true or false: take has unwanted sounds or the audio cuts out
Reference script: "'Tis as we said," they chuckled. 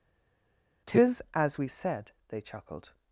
false